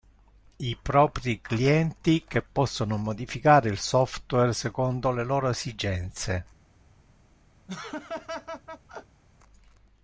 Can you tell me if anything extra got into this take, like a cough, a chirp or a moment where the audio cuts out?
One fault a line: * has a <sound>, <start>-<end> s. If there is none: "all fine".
* has a laugh, 7.7-9.2 s